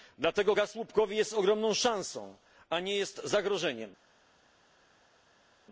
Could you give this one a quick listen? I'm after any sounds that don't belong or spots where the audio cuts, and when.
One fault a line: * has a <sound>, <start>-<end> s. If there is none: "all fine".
all fine